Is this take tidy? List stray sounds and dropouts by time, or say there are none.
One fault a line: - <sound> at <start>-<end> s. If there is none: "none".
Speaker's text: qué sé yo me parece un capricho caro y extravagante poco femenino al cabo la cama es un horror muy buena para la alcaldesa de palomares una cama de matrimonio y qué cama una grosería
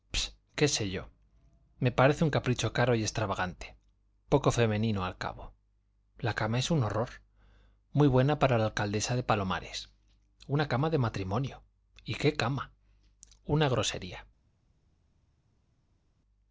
none